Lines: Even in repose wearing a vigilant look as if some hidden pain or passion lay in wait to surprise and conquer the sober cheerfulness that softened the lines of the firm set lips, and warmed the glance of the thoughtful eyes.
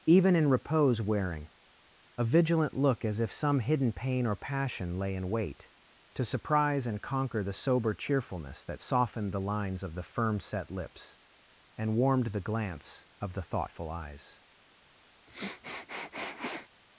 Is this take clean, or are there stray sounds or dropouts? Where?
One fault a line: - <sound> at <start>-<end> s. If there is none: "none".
- sniff at 15.3-16.7 s